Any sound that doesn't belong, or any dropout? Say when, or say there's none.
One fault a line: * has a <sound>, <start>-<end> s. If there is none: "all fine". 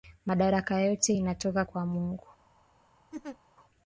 * has a laugh, 3.1-3.4 s